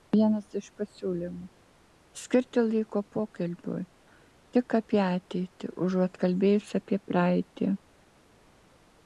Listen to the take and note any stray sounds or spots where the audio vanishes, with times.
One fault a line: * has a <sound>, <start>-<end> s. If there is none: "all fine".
all fine